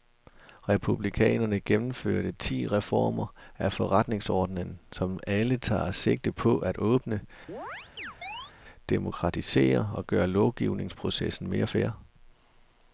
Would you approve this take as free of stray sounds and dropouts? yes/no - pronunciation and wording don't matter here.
no